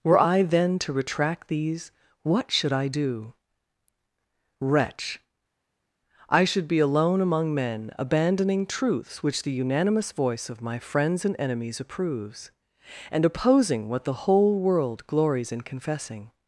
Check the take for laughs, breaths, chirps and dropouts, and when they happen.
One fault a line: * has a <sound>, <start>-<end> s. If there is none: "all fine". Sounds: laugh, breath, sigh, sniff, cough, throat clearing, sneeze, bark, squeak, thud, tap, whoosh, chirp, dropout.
all fine